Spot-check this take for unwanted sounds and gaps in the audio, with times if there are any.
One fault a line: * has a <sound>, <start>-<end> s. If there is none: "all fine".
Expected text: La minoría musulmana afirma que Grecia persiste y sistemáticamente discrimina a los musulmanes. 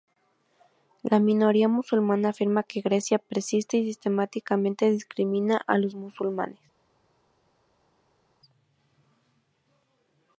all fine